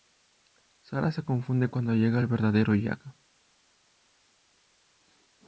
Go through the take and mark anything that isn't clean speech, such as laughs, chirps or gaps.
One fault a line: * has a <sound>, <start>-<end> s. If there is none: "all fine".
all fine